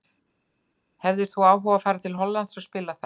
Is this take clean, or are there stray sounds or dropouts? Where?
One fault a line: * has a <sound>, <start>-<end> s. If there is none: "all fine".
all fine